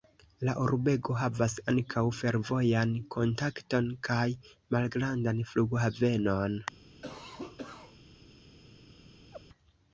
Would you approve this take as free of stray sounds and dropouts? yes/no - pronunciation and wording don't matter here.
no